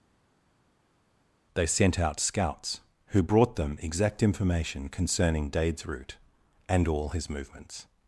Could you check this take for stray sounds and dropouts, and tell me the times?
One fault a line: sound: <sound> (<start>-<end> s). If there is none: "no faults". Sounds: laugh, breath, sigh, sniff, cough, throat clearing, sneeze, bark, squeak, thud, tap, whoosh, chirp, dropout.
no faults